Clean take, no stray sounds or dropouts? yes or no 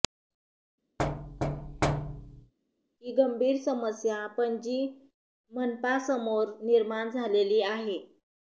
no